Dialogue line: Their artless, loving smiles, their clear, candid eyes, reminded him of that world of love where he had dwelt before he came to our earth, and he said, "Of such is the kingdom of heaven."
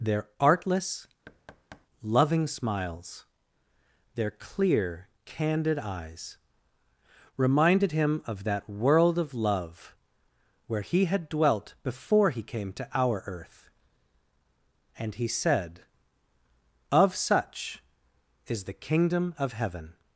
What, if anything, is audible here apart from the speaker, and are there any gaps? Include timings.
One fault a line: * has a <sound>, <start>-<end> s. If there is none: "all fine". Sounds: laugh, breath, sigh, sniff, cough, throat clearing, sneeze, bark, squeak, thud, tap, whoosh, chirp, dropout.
* has a thud, 1.3-1.9 s